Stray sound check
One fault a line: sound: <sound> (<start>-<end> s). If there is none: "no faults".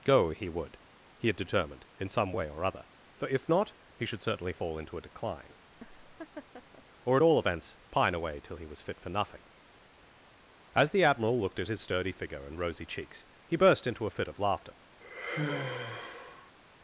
sound: laugh (5.7-6.8 s)
sound: sigh (15.0-16.5 s)